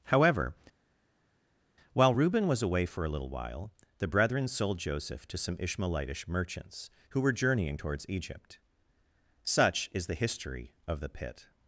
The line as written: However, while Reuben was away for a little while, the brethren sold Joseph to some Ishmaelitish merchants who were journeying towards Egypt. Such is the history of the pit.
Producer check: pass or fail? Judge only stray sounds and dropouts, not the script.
pass